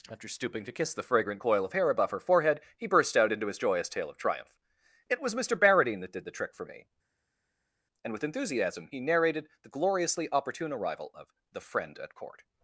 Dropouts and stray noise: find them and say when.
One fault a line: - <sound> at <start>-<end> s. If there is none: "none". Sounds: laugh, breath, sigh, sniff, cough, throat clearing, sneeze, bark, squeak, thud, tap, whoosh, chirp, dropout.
none